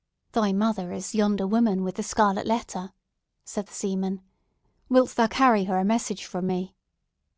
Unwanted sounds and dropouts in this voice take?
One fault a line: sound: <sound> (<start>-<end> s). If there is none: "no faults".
no faults